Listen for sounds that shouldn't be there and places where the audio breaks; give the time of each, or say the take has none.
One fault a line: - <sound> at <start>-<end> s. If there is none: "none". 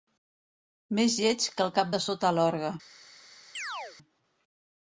- chirp at 3.5-4.0 s